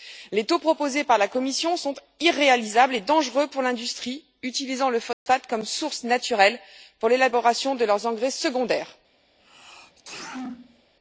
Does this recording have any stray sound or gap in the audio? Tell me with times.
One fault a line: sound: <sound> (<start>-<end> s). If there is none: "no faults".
sound: dropout (5.1-5.3 s)
sound: sneeze (9.4-10.9 s)